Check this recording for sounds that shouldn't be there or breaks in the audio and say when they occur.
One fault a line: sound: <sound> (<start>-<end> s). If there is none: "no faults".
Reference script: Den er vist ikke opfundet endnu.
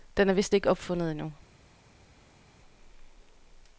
no faults